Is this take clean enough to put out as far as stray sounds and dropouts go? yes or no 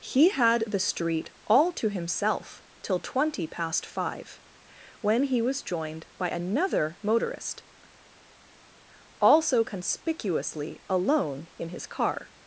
yes